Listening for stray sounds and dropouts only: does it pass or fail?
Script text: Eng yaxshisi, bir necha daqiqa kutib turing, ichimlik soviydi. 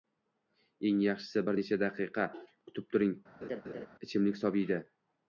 fail